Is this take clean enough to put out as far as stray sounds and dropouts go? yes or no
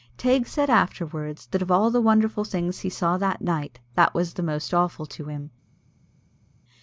yes